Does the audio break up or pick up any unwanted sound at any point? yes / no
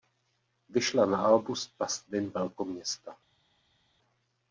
no